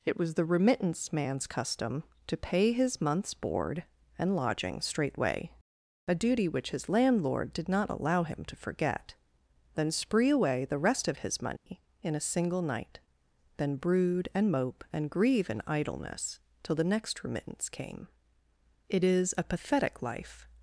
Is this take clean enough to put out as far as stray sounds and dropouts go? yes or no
no